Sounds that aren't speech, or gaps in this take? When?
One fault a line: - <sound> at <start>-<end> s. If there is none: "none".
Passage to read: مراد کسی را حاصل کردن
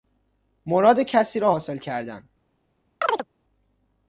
- chirp at 3.0-3.3 s